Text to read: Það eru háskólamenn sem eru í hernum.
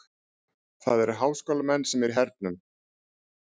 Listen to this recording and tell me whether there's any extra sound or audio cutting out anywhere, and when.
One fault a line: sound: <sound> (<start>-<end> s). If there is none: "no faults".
no faults